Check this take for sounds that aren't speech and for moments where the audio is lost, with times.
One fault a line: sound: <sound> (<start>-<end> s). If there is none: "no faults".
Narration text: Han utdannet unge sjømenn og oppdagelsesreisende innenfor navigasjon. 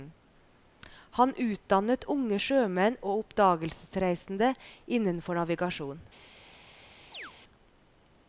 sound: chirp (7.1-7.3 s)